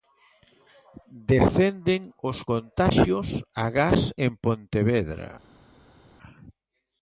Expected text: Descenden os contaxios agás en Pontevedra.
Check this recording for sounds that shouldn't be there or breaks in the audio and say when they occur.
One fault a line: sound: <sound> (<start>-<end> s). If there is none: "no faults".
no faults